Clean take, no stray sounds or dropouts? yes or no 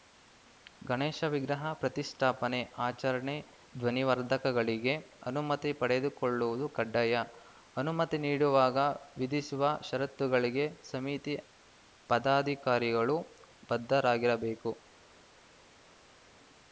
yes